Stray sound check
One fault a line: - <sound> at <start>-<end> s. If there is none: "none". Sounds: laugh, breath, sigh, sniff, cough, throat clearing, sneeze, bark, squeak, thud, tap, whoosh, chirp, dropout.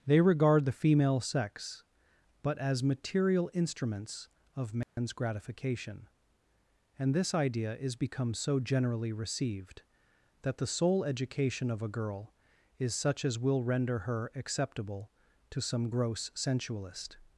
- dropout at 4.8-5.0 s